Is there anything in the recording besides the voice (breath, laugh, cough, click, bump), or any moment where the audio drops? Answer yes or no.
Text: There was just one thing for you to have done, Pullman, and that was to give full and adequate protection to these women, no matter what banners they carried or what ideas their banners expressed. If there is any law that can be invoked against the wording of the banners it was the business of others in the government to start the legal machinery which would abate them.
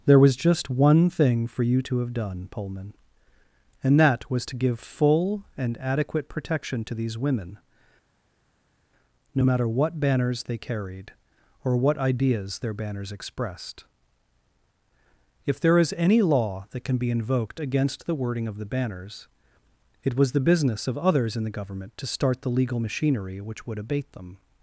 no